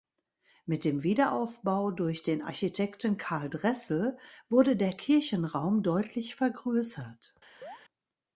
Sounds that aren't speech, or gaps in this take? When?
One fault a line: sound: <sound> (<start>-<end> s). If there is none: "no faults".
sound: chirp (7.6-7.8 s)